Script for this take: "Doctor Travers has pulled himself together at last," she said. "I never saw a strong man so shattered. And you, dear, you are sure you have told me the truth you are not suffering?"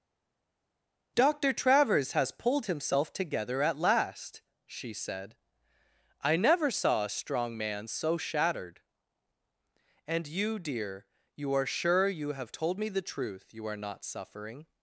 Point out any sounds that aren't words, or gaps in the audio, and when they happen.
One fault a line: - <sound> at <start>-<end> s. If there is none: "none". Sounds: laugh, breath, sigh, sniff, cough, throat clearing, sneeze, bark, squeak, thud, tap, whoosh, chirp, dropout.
none